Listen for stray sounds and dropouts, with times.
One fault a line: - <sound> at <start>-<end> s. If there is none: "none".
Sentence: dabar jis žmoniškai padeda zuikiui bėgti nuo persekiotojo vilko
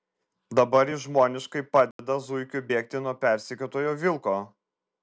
- dropout at 1.9-2.0 s